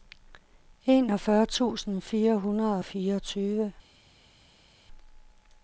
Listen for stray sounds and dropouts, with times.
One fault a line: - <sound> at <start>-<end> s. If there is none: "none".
none